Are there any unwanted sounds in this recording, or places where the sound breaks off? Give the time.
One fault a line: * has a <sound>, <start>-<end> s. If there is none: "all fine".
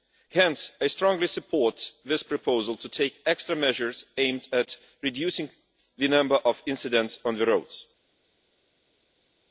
all fine